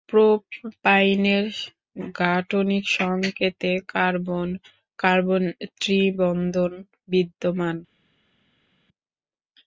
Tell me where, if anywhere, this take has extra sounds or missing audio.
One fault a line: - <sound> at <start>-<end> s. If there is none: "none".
none